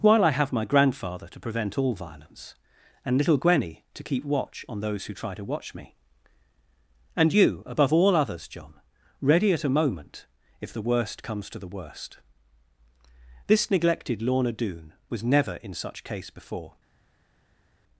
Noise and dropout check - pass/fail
pass